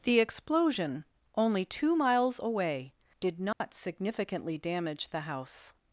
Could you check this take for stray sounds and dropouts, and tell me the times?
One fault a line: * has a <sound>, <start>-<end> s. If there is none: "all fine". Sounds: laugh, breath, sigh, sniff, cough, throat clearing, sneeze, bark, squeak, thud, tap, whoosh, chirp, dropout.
* has a dropout, 3.5-3.6 s